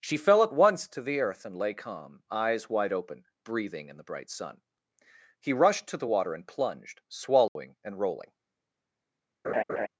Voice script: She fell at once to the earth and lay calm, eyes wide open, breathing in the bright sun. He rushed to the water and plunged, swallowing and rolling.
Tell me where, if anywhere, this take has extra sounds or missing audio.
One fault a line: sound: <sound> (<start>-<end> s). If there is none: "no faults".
sound: dropout (7.5-7.6 s)
sound: laugh (9.4-9.9 s)